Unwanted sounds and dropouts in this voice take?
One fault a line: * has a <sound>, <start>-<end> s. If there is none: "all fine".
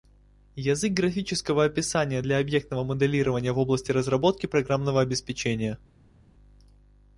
all fine